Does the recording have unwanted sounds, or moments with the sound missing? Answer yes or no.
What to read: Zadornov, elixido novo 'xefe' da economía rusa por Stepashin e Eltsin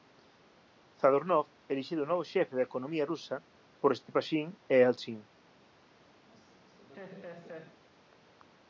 yes